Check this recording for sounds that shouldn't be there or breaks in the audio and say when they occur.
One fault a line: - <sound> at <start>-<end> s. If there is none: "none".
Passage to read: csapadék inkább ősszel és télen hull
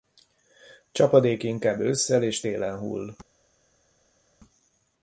none